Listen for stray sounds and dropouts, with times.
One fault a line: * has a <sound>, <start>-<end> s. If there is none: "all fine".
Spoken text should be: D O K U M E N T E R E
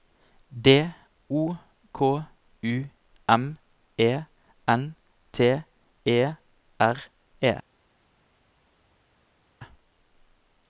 all fine